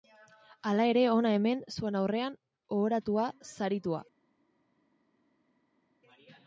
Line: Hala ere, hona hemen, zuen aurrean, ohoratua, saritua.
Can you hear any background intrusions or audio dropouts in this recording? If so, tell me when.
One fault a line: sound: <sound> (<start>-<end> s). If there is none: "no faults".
no faults